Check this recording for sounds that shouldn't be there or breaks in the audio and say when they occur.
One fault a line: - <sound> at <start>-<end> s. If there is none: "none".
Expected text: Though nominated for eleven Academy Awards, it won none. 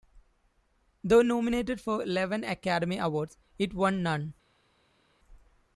none